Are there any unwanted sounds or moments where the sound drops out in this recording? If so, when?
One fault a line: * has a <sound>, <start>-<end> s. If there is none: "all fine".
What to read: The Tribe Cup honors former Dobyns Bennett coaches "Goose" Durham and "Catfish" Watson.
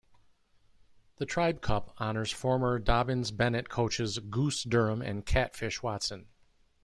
all fine